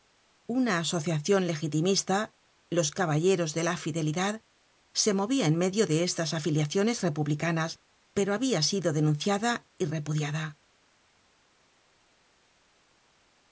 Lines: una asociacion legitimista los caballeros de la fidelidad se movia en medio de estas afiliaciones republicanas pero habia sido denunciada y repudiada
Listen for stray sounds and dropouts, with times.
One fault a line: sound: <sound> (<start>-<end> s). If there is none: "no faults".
no faults